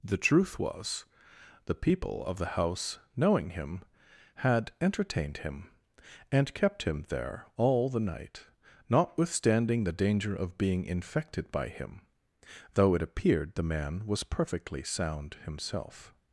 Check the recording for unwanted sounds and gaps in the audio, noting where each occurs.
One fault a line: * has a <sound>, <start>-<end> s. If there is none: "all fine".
all fine